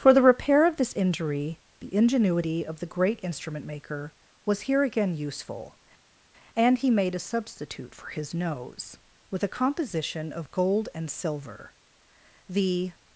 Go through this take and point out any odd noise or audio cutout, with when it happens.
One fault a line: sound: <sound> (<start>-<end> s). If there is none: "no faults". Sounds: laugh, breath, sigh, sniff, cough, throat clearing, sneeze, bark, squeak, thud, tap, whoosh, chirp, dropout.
no faults